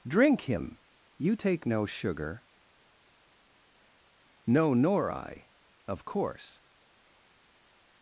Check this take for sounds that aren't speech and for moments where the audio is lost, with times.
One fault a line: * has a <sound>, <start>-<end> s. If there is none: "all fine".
all fine